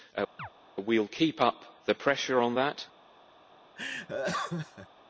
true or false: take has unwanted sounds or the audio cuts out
true